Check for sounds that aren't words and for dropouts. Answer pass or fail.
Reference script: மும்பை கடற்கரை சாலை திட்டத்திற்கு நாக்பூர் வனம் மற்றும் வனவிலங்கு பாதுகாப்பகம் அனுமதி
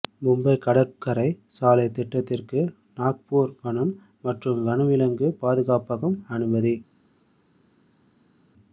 pass